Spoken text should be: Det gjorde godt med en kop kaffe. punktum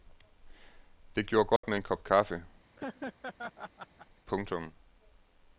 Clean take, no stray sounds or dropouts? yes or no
no